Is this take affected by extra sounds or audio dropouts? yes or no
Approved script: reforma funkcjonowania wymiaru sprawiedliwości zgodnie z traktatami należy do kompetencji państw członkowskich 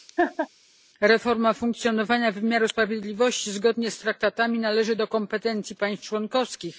yes